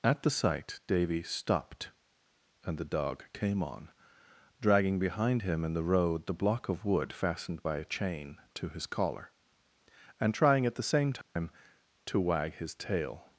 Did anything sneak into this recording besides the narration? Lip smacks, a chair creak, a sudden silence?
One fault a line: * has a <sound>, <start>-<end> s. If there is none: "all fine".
* has a dropout, 11.2-11.4 s